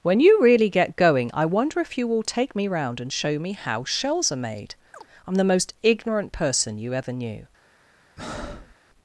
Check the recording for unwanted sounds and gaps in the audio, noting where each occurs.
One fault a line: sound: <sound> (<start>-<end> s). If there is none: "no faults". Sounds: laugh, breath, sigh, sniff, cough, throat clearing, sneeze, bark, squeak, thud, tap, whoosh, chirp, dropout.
sound: chirp (4.9-5.1 s)
sound: breath (8.2-8.7 s)